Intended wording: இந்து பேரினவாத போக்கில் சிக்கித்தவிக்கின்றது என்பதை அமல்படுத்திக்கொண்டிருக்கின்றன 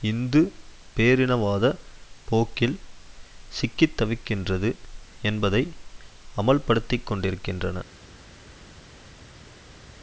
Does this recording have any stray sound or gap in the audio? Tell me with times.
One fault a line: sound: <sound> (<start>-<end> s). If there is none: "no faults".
no faults